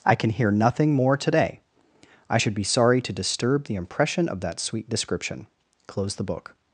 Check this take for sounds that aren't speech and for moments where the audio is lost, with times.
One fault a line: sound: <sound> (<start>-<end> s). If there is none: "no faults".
no faults